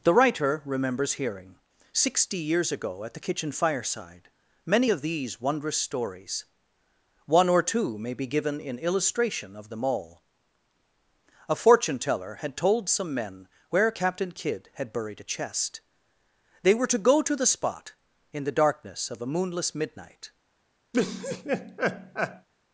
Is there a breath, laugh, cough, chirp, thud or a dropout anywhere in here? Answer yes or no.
yes